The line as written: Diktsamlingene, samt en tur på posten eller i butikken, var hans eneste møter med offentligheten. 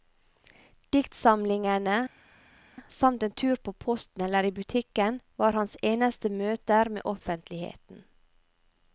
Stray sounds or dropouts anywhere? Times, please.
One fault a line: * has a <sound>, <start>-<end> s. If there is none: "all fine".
all fine